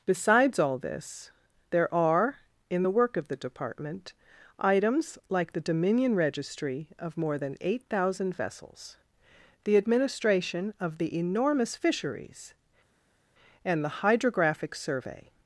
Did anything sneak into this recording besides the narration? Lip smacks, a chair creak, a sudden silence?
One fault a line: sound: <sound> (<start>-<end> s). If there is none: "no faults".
no faults